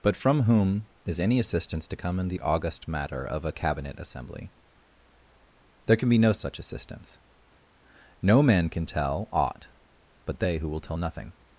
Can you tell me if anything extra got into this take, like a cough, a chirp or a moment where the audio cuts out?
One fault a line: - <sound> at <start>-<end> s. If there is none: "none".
none